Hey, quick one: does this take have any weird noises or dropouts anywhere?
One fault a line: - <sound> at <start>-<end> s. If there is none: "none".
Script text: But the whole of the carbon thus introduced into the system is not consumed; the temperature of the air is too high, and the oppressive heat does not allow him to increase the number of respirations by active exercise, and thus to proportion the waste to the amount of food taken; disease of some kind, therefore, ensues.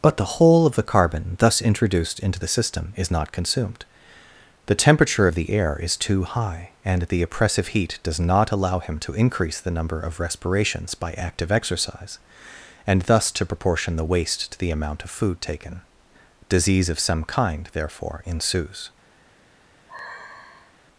- sigh at 19.9-20.8 s